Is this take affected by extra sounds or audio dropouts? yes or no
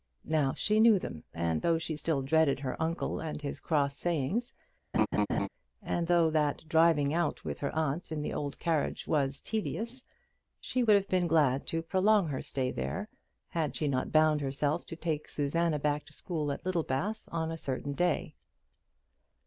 yes